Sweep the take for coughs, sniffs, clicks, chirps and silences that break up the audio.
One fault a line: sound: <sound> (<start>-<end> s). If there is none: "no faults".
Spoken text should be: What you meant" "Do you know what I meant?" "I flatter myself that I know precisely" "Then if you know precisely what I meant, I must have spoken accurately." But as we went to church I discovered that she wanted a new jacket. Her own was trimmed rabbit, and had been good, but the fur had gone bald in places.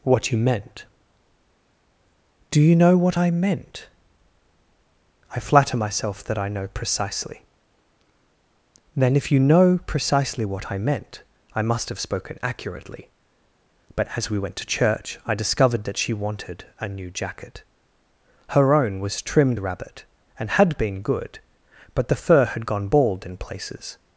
no faults